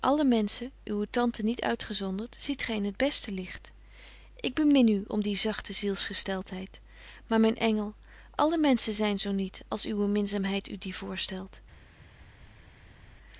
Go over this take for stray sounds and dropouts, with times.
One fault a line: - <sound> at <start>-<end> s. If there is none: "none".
none